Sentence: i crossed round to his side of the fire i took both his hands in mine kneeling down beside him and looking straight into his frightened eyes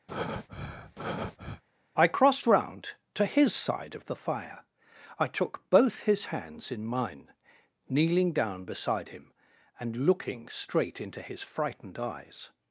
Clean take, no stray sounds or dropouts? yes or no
no